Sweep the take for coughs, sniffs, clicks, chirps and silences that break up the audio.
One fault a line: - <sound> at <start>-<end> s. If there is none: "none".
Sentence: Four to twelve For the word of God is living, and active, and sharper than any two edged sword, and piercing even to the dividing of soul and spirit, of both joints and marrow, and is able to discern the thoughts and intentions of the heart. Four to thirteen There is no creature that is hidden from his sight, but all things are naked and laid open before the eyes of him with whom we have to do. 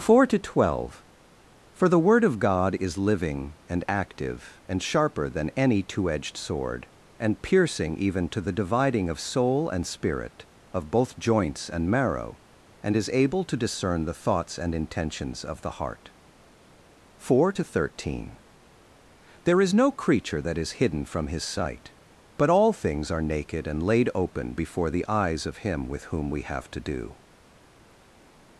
none